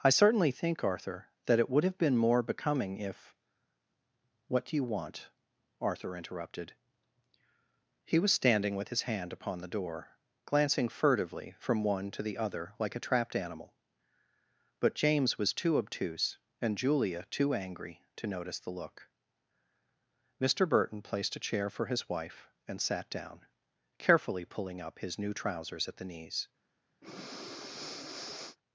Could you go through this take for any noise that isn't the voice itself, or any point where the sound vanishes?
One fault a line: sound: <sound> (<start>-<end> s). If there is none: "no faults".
sound: breath (27.0-28.6 s)